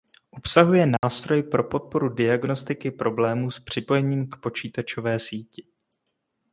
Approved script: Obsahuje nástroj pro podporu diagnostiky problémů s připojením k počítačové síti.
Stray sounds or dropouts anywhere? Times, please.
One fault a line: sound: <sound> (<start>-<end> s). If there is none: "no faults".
sound: dropout (1.0-1.0 s)